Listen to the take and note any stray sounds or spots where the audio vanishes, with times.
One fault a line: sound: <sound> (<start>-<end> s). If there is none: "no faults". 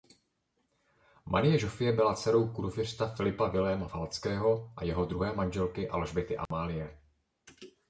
sound: dropout (6.5-6.5 s)